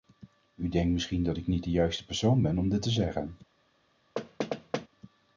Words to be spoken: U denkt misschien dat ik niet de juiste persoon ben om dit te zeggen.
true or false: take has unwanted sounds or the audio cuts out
true